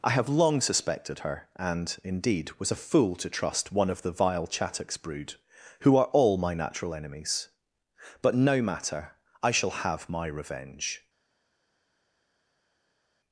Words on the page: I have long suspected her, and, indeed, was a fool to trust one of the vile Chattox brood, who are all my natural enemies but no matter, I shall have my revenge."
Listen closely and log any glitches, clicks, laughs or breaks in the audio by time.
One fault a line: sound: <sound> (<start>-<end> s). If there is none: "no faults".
no faults